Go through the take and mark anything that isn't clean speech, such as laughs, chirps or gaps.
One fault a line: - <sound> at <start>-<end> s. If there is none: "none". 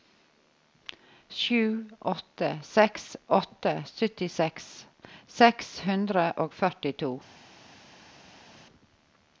none